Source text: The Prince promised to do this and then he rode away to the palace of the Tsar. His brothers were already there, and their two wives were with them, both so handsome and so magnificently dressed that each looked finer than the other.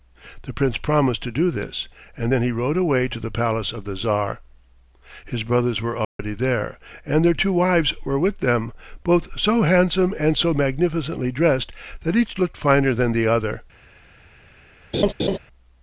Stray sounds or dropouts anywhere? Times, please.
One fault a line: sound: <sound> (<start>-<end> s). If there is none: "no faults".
sound: dropout (6.0-6.2 s)
sound: laugh (14.9-15.4 s)